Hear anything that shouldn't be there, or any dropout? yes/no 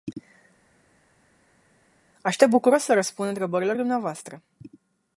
no